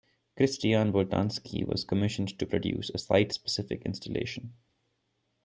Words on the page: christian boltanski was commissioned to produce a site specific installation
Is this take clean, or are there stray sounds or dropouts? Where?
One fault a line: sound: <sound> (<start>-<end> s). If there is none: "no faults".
no faults